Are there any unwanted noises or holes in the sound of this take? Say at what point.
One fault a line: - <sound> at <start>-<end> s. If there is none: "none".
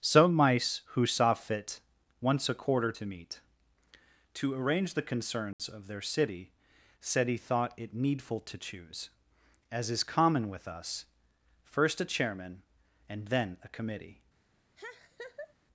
- dropout at 5.5-5.6 s
- laugh at 14.8-15.5 s